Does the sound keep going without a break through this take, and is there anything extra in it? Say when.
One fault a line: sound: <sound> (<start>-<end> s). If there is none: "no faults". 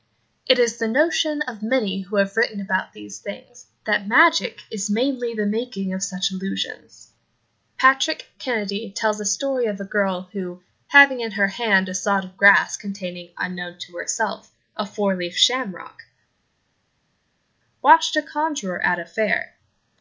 no faults